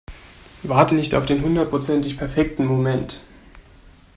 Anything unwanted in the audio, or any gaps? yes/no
no